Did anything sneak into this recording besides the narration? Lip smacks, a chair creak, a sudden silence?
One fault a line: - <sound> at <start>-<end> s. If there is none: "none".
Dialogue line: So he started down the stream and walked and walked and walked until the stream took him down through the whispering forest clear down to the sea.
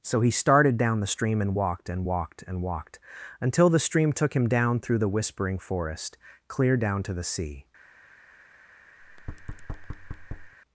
- thud at 9.0-10.5 s